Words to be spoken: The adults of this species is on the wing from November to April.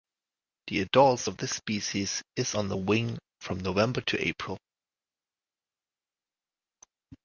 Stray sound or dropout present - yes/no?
no